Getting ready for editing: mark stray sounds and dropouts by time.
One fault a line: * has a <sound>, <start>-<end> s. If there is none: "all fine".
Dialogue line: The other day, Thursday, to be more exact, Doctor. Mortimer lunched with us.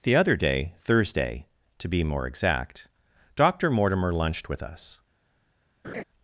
* has a laugh, 5.8-6.0 s